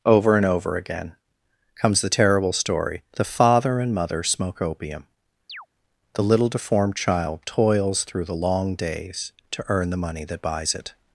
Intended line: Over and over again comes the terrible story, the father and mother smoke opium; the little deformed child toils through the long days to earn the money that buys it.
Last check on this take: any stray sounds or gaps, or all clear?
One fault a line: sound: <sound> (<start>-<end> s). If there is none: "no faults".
sound: chirp (5.5-5.7 s)